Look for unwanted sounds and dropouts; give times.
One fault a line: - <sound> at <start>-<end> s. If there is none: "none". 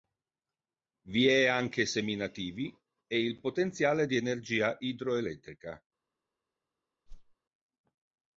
- whoosh at 7.1-7.4 s